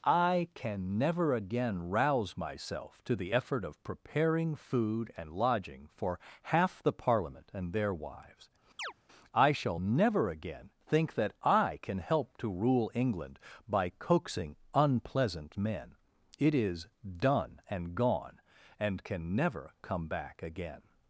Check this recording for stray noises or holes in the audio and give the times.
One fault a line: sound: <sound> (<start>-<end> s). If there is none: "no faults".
sound: chirp (8.8-8.9 s)